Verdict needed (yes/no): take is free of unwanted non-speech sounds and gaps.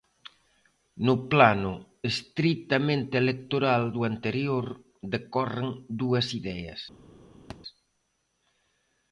no